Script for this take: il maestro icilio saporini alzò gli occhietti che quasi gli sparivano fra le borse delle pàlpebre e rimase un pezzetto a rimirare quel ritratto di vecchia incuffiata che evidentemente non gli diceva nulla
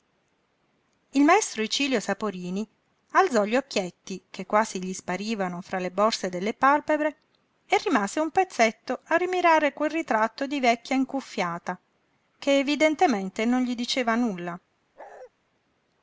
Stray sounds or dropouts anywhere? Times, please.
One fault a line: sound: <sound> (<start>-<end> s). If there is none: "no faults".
sound: bark (15.0-15.3 s)